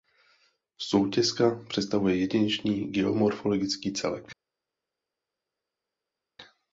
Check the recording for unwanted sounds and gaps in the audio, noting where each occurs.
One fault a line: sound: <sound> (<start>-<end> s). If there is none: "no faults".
no faults